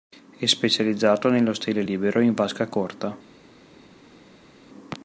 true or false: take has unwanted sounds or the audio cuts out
false